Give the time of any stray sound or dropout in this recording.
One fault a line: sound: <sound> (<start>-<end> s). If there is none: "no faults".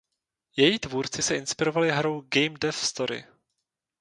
no faults